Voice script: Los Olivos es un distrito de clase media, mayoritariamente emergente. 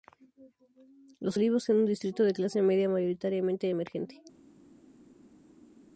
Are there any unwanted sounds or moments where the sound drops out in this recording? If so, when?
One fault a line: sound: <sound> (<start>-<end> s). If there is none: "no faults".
no faults